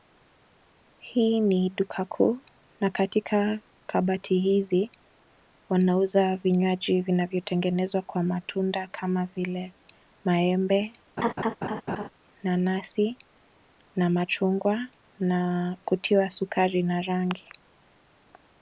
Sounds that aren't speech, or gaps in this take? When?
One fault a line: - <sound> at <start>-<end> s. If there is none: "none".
- laugh at 11.2-12.1 s